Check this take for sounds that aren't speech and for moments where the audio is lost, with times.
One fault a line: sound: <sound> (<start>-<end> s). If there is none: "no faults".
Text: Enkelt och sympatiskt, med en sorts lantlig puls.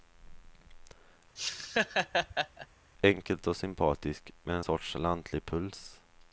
sound: laugh (1.4-2.7 s)